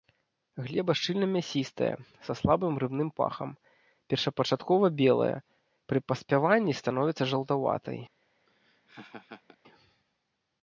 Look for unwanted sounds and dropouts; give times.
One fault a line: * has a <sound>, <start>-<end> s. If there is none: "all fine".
* has a laugh, 8.5-9.6 s